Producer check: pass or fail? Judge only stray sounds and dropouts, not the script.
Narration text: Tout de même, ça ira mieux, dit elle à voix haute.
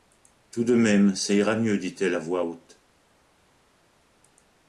pass